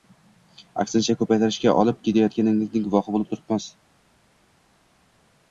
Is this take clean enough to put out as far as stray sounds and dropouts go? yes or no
yes